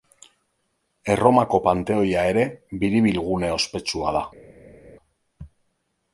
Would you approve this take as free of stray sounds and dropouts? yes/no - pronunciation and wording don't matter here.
yes